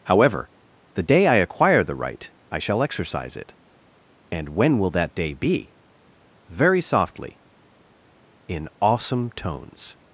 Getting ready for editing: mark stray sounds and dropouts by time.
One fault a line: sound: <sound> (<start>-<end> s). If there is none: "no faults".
no faults